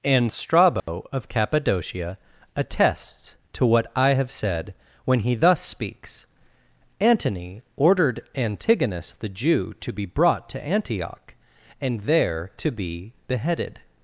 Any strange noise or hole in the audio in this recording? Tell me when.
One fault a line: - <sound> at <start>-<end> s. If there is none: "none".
- dropout at 0.8-0.9 s